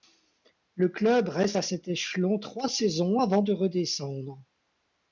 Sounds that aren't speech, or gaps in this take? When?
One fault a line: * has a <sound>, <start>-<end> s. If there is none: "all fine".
all fine